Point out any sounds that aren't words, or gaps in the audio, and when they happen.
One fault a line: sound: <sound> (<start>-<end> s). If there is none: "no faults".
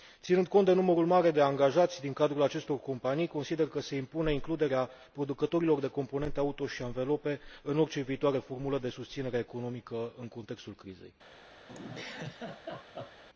sound: laugh (11.7-13.2 s)